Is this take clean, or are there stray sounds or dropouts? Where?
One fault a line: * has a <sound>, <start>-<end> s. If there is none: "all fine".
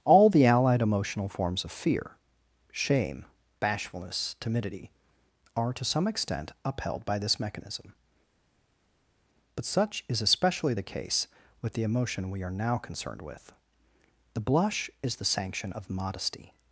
all fine